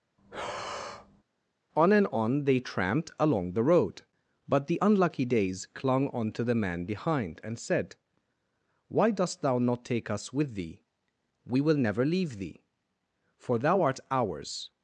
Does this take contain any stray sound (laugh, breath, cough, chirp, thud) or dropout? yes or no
yes